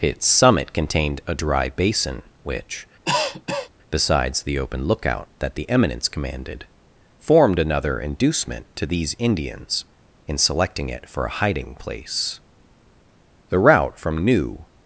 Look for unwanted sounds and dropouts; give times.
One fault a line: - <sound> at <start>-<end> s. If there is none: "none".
- cough at 3.0-3.7 s